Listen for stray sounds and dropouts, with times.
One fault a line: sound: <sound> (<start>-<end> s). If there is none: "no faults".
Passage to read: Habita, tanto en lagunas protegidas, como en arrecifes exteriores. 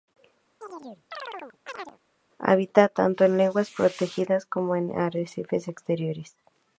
sound: chirp (0.6-2.0 s)